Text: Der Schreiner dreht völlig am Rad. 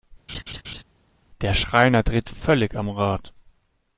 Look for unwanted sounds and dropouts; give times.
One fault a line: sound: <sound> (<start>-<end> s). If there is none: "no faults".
sound: laugh (0.3-0.8 s)